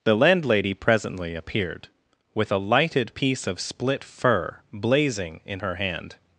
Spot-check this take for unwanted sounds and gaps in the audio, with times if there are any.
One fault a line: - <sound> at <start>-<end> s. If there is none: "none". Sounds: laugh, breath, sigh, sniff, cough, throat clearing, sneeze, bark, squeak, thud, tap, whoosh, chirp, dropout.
none